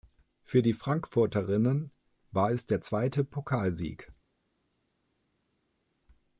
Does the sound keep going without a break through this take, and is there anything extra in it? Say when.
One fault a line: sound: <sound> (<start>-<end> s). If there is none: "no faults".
no faults